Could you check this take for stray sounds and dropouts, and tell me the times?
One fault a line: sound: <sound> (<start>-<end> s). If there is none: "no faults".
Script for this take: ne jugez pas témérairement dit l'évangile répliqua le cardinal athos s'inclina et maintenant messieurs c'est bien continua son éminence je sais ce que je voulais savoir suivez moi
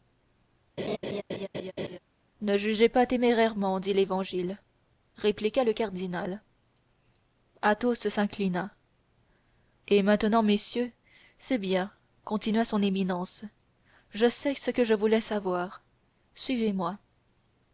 sound: laugh (0.8-2.0 s)